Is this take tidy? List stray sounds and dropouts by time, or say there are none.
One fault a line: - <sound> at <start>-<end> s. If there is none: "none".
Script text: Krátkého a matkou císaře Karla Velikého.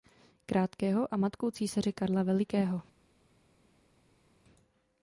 none